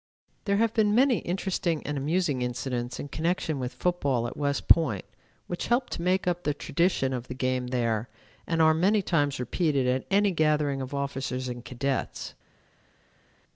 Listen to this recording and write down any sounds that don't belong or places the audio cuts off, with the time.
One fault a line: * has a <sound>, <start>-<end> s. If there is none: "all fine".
all fine